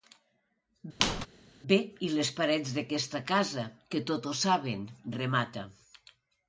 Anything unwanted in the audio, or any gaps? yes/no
yes